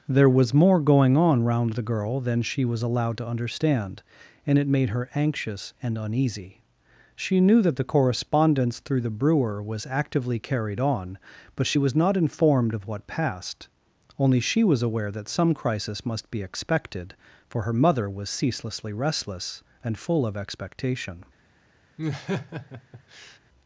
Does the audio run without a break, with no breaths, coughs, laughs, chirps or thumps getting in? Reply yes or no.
no